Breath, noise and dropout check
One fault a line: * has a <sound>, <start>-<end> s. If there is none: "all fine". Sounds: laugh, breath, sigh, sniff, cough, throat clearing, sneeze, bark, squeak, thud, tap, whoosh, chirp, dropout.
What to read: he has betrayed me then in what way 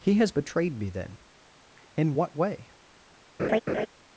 * has a laugh, 3.4-3.9 s